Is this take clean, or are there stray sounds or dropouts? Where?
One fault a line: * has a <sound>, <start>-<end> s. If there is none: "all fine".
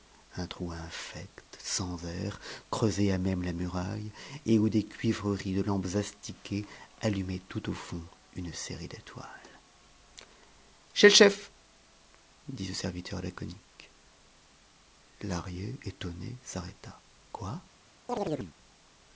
* has a chirp, 18.1-18.5 s